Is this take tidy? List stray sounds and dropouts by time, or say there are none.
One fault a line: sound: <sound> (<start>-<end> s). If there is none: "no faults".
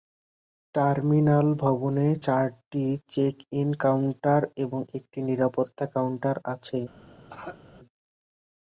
sound: cough (7.3-7.6 s)